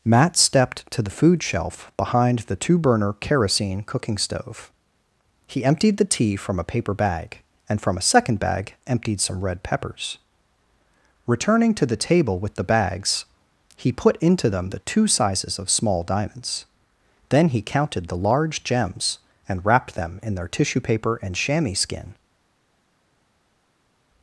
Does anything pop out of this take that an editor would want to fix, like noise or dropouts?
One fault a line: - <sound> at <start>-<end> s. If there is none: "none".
none